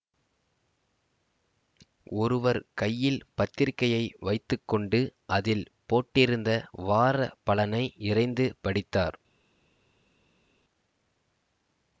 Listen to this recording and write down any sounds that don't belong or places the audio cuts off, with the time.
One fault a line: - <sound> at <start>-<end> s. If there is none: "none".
none